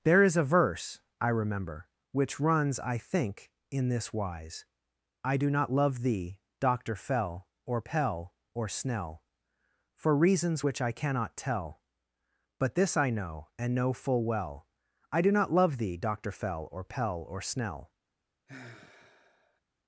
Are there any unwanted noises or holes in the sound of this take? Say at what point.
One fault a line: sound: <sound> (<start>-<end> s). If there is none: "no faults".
sound: sigh (18.5-19.6 s)